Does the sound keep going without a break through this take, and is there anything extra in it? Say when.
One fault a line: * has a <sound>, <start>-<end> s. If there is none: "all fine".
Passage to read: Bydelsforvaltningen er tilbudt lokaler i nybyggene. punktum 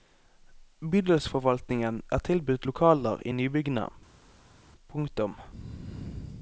all fine